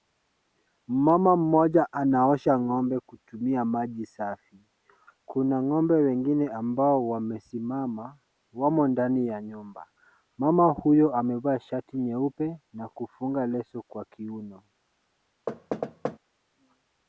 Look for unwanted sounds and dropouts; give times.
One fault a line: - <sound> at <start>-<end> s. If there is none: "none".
- thud at 15.5-16.2 s